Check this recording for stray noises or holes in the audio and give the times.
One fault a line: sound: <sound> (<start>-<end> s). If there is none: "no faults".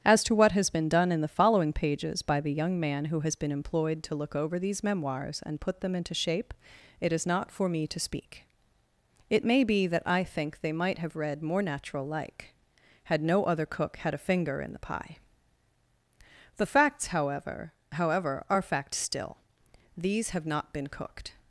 no faults